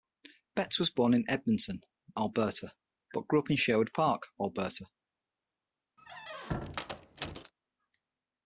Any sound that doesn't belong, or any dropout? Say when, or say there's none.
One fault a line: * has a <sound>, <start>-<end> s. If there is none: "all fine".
* has a squeak, 6.0-7.5 s